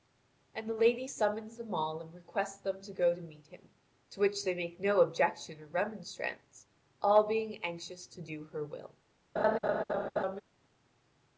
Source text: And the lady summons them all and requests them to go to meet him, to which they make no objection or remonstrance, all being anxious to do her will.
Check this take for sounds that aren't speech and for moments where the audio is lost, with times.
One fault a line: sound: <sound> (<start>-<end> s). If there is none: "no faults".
sound: laugh (9.4-10.4 s)